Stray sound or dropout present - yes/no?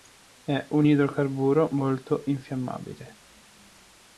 no